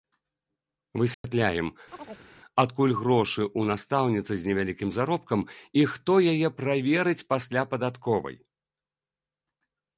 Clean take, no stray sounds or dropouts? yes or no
no